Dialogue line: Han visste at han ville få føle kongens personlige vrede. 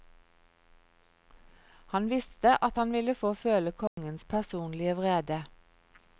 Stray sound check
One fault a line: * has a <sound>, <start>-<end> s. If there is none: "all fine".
* has a dropout, 3.9-4.0 s